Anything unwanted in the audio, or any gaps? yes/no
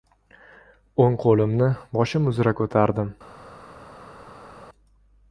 no